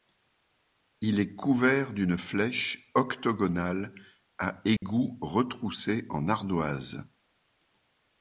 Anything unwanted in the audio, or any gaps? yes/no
yes